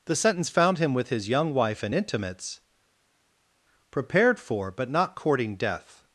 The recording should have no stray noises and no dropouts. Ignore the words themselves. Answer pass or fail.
pass